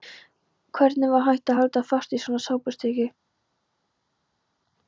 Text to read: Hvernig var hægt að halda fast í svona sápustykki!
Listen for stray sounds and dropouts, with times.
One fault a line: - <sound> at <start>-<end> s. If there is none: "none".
none